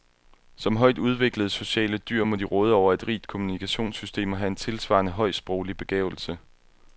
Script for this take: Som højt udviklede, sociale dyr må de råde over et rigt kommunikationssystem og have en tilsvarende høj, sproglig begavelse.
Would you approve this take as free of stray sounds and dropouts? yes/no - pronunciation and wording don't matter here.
yes